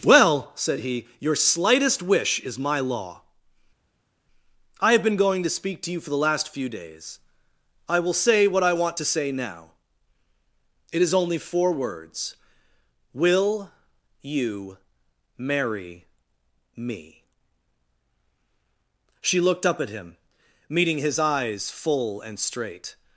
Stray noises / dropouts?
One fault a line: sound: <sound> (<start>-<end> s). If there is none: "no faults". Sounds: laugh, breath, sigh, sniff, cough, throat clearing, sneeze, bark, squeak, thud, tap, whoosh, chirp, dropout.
no faults